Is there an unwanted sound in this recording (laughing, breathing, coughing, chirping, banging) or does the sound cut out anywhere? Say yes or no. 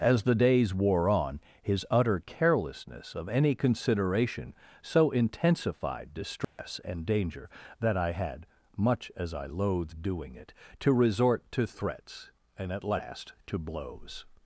yes